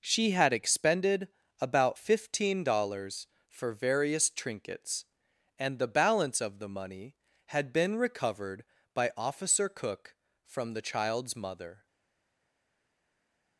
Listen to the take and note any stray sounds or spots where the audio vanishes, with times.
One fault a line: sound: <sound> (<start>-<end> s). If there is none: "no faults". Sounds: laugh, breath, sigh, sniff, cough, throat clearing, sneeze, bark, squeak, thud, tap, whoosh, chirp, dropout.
no faults